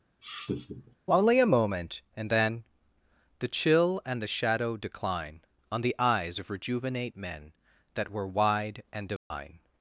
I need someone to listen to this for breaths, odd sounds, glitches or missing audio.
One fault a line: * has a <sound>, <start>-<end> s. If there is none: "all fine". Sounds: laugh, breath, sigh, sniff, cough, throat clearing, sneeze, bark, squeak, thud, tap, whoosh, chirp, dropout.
* has a laugh, 0.2-1.0 s
* has a dropout, 9.2-9.3 s